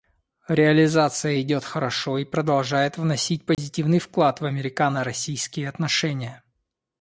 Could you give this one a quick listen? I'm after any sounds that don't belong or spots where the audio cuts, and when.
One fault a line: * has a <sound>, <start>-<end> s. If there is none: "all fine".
* has a dropout, 3.5-3.6 s